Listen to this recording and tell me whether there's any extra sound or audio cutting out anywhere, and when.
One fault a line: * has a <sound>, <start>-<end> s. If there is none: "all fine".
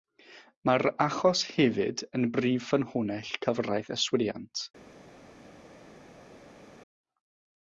all fine